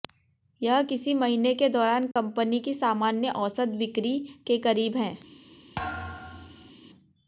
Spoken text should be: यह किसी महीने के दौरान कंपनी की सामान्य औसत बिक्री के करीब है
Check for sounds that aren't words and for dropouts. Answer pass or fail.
fail